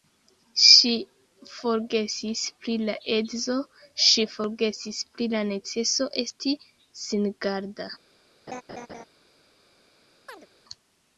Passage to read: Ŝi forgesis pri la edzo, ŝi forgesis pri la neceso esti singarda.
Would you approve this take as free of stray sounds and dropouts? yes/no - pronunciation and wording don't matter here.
no